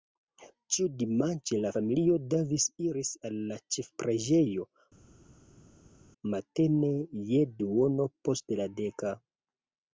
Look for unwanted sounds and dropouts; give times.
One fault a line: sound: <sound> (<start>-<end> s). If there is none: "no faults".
no faults